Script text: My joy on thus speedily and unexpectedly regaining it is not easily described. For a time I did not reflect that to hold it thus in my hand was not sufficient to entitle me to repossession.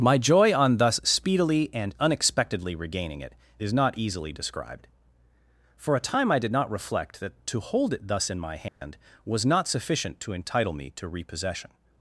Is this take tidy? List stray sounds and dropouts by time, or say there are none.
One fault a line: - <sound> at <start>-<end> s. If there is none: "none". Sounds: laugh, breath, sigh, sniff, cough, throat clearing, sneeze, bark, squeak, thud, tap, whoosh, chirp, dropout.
- dropout at 8.7-8.8 s